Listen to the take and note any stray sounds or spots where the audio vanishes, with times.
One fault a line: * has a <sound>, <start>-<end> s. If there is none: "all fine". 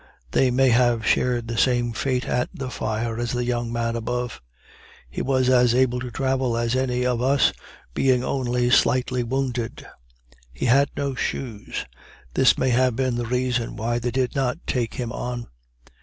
all fine